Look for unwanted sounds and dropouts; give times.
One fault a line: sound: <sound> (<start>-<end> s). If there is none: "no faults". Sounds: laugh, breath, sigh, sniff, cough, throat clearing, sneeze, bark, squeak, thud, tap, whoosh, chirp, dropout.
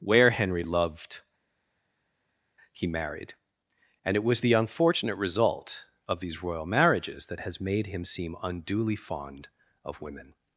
no faults